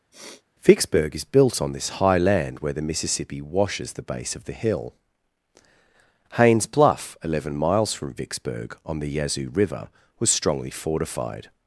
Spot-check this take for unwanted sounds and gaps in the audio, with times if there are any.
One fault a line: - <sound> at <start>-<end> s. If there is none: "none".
- sniff at 0.1-0.4 s